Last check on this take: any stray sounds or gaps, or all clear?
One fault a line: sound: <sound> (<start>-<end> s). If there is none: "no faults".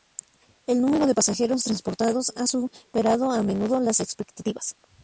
no faults